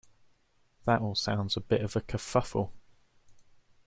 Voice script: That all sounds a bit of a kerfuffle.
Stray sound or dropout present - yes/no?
no